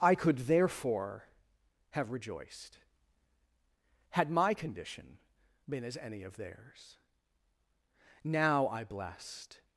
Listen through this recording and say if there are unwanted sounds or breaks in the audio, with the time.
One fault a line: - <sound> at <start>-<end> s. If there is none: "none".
none